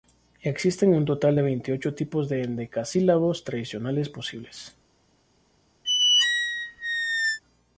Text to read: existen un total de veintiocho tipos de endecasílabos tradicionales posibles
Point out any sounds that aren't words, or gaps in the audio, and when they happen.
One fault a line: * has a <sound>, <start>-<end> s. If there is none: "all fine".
* has a squeak, 5.8-7.4 s